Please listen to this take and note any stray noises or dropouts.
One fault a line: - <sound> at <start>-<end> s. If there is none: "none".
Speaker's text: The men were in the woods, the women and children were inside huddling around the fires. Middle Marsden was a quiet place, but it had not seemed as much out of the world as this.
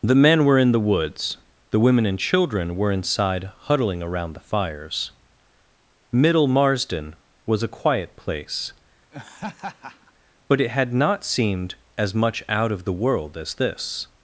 - laugh at 9.1-10.1 s